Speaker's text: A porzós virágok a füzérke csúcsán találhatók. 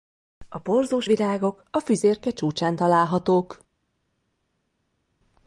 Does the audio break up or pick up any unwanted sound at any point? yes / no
no